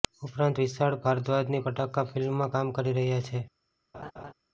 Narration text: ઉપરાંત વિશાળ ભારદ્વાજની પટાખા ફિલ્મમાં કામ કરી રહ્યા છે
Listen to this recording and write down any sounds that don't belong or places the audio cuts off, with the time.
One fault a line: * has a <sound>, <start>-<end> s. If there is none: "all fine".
* has a laugh, 3.9-4.3 s